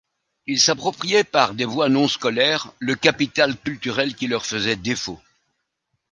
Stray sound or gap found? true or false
false